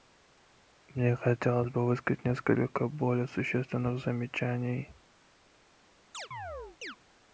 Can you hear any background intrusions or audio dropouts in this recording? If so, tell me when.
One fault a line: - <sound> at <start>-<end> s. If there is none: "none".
- chirp at 6.1-7.0 s